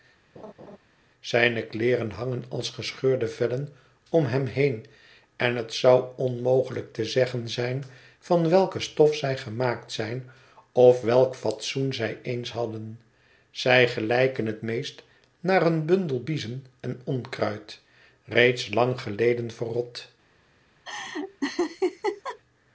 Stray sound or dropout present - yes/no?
yes